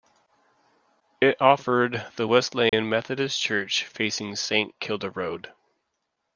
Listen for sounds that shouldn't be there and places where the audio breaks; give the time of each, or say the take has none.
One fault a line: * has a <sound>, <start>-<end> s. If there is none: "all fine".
* has a dropout, 2.7-2.7 s